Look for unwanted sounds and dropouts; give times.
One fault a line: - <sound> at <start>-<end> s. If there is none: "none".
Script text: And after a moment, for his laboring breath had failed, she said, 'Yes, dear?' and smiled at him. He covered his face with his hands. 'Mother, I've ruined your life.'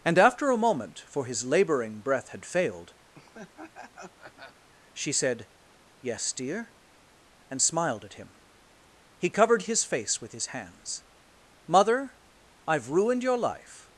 - laugh at 3.1-4.7 s